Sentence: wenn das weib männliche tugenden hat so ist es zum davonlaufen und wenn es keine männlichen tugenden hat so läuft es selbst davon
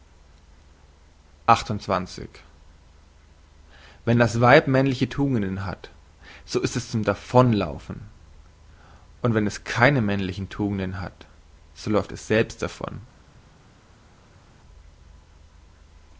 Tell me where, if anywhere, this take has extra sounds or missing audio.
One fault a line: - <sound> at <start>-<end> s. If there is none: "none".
none